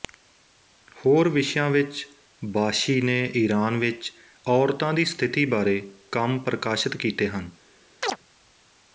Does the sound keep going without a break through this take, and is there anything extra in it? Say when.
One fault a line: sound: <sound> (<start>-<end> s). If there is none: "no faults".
sound: chirp (8.0-8.2 s)